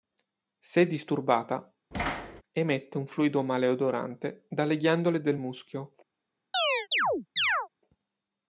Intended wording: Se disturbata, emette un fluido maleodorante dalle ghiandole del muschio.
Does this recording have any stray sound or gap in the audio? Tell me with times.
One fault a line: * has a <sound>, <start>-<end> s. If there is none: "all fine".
* has a thud, 1.9-2.4 s
* has a chirp, 6.5-7.7 s